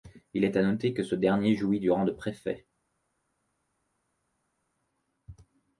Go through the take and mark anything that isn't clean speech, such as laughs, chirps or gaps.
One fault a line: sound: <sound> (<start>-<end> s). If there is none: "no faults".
no faults